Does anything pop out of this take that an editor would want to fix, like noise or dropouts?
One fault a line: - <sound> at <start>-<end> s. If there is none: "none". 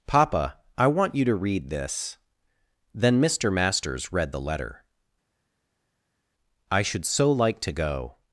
none